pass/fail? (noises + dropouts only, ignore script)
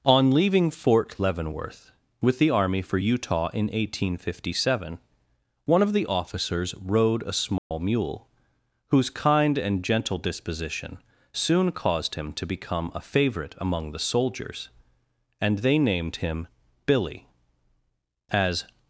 fail